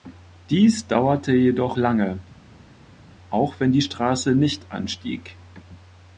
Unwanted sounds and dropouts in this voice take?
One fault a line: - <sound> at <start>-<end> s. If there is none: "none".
none